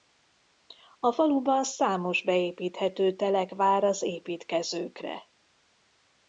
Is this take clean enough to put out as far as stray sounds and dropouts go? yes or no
yes